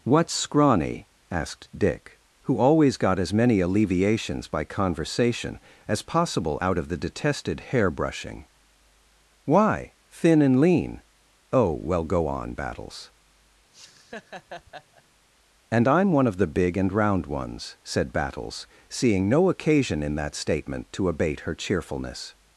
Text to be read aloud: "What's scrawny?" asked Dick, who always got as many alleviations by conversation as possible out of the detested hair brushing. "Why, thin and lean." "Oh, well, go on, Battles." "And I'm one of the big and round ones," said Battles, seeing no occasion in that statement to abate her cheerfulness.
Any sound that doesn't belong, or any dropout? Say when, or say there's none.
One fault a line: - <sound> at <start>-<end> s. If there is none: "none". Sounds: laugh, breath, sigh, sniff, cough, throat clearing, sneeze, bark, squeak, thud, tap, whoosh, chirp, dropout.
- laugh at 13.7-15.0 s